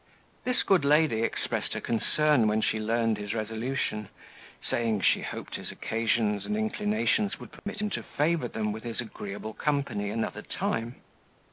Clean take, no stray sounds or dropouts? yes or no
no